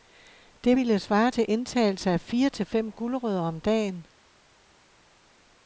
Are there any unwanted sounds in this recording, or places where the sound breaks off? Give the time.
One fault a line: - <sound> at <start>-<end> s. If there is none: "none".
none